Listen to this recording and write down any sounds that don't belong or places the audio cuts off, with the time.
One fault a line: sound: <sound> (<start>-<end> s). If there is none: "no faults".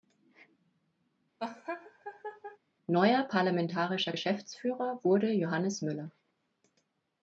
sound: laugh (1.4-2.6 s)